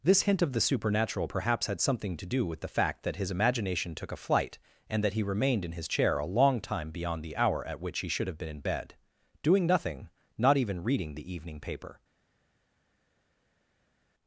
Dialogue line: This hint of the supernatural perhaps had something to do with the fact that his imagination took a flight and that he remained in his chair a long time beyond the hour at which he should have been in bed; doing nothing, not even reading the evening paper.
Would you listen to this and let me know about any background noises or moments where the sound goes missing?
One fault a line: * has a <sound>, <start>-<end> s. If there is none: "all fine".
all fine